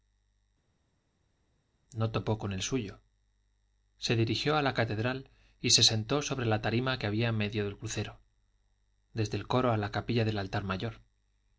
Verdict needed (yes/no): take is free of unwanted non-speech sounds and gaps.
yes